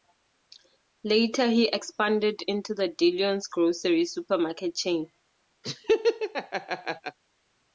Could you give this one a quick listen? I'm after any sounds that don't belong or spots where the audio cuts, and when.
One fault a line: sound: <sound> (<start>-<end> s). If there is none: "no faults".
sound: laugh (5.6-7.2 s)